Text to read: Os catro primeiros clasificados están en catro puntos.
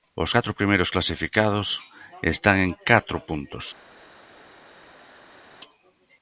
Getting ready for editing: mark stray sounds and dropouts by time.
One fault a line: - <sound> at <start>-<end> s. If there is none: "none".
none